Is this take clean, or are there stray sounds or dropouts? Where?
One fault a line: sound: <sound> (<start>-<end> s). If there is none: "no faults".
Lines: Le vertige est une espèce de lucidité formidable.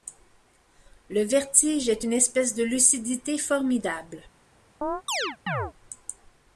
sound: chirp (4.8-5.7 s)